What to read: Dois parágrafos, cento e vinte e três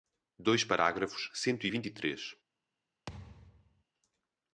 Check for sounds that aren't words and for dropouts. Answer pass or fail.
fail